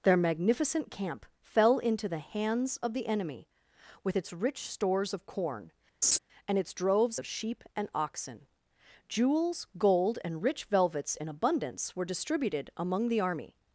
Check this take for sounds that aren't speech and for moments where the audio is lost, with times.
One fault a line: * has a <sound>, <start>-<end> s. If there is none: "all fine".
* has a laugh, 6.0-6.2 s